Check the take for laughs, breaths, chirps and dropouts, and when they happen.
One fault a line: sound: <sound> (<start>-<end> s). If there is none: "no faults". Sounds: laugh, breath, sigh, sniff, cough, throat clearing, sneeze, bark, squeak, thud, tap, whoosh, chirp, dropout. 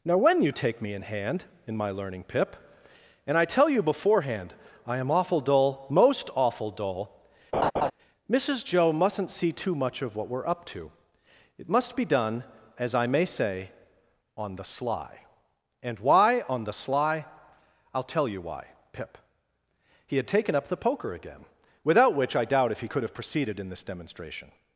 sound: laugh (7.5-7.9 s)